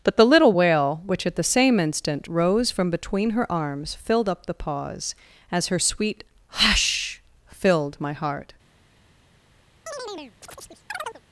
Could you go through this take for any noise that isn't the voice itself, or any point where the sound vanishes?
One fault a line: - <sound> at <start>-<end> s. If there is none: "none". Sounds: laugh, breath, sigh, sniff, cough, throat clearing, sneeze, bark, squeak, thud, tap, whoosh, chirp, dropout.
- chirp at 9.9-11.2 s